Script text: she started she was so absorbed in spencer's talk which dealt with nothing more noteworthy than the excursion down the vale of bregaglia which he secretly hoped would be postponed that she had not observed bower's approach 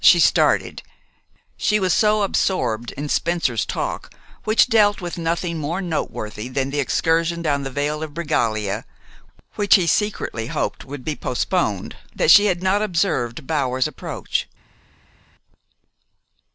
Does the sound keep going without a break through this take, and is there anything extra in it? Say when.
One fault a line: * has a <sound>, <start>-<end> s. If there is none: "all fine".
all fine